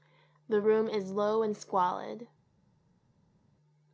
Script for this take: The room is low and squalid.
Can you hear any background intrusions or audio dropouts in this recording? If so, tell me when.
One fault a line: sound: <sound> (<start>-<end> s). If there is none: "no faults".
no faults